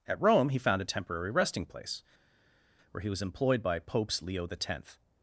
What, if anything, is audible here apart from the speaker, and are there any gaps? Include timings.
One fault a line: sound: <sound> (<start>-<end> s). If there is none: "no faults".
no faults